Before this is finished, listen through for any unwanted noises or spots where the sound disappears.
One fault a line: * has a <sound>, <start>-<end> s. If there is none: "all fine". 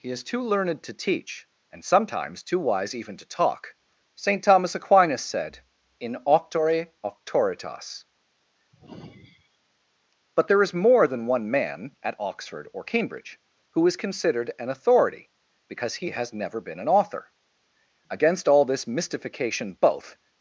* has a sigh, 8.7-9.6 s